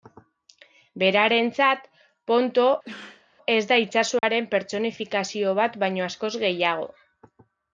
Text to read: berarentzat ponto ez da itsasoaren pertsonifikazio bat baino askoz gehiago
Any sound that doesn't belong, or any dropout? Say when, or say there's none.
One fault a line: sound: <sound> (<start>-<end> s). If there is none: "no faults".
sound: sneeze (2.8-3.3 s)
sound: dropout (4.2-4.2 s)